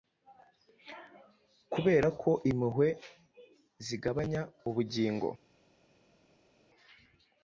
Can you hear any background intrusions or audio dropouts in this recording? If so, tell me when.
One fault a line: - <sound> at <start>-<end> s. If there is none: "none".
none